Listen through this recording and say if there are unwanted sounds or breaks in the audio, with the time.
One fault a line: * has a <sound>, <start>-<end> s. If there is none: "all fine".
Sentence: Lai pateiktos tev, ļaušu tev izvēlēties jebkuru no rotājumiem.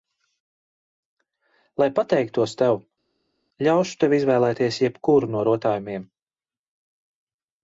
all fine